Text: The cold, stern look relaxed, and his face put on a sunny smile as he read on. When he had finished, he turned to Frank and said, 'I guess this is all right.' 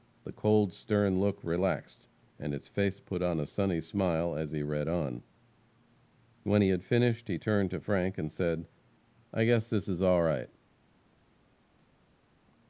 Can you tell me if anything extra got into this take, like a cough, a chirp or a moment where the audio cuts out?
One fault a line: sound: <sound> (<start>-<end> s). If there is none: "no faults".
no faults